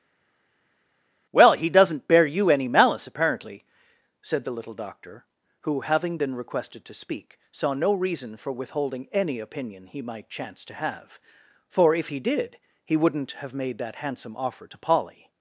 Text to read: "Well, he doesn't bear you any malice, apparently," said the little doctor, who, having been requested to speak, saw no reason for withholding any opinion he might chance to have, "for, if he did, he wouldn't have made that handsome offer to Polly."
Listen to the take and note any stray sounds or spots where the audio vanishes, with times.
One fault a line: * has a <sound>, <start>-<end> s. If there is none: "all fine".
all fine